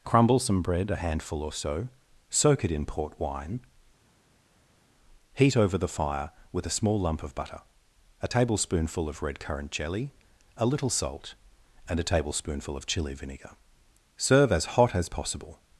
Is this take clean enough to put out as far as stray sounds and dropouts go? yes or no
yes